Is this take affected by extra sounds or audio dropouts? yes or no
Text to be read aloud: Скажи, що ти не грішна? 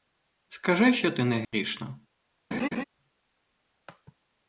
yes